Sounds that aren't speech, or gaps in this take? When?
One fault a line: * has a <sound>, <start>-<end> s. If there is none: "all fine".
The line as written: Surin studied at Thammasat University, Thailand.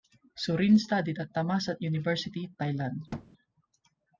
* has a thud, 3.1-3.3 s